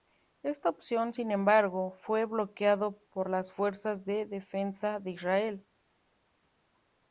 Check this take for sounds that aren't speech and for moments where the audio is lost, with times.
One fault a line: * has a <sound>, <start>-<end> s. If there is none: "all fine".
all fine